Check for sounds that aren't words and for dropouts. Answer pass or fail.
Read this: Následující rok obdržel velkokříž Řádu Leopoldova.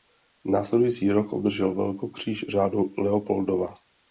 pass